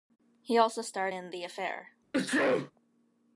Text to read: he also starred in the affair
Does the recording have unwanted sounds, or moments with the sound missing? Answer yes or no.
yes